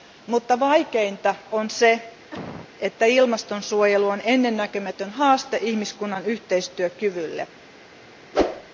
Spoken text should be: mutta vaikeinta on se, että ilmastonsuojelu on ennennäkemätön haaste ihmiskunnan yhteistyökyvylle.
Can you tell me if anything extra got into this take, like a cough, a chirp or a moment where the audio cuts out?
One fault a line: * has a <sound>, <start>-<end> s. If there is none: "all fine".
* has a cough, 2.3-2.7 s
* has a whoosh, 8.3-8.7 s